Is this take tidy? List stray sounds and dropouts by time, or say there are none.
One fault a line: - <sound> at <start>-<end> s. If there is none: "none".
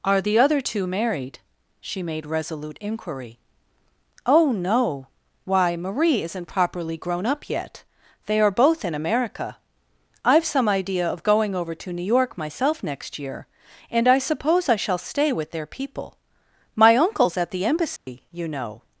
- dropout at 18.0-18.1 s